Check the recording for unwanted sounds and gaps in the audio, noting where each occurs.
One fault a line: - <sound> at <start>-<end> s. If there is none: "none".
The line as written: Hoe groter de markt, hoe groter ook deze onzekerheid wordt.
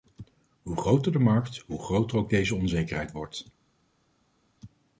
none